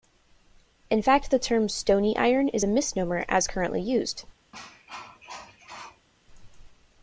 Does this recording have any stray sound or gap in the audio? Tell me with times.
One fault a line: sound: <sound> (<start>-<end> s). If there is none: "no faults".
sound: cough (4.5-6.1 s)